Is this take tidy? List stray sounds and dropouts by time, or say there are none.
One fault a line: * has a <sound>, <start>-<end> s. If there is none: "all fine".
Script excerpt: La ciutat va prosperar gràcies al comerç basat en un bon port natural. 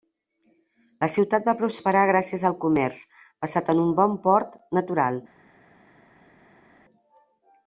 all fine